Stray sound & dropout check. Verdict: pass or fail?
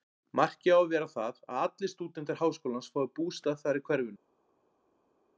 pass